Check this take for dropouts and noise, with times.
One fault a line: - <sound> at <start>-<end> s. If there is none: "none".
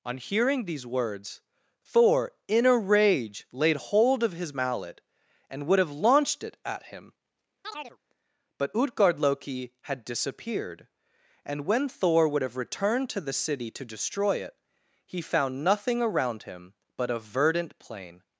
- chirp at 7.6-8.0 s